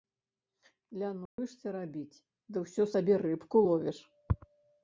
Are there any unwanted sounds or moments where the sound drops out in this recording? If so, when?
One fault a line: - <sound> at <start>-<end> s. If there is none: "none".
- dropout at 1.3-1.4 s